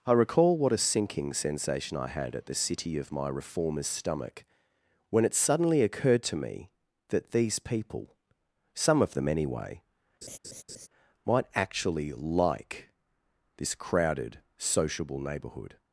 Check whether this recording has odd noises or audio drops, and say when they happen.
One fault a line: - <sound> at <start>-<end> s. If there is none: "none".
- laugh at 10.2-10.9 s